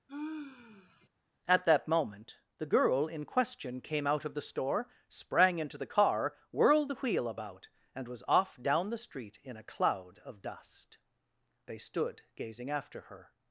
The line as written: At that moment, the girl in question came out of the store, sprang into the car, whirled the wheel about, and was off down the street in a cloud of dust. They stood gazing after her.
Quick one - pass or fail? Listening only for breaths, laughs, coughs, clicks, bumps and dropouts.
fail